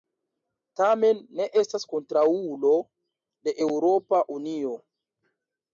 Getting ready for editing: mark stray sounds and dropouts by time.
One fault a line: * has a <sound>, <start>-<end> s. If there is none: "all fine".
all fine